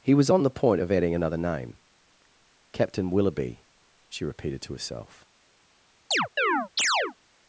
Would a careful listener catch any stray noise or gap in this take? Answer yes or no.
yes